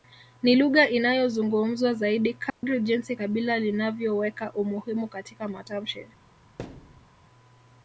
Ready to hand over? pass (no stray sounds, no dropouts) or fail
fail